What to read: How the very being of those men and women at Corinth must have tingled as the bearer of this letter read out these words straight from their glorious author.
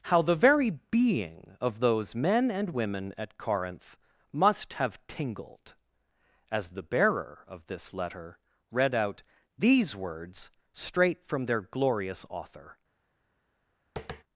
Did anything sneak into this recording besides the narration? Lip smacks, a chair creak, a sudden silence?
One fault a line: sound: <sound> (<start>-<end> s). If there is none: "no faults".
sound: tap (14.0-14.2 s)